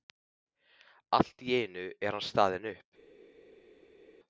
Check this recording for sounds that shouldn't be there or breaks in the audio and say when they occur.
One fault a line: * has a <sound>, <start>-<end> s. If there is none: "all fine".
all fine